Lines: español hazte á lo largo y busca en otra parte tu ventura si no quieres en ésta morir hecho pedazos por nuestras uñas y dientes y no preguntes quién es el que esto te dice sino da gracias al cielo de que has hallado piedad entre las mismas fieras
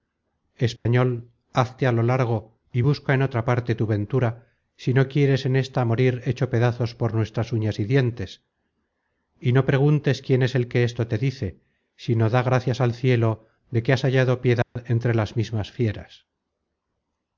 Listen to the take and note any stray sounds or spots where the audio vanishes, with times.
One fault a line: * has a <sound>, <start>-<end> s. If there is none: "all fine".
* has a dropout, 0.8-0.9 s
* has a dropout, 14.6-14.8 s